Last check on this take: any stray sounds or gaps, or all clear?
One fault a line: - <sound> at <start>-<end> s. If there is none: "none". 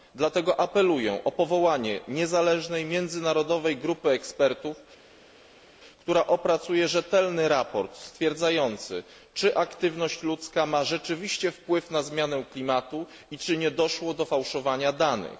none